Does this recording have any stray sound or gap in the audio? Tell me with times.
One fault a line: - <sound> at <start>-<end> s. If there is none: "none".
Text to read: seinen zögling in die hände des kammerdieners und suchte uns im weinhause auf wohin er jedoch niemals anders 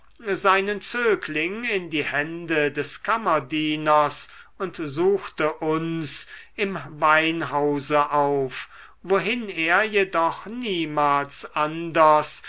none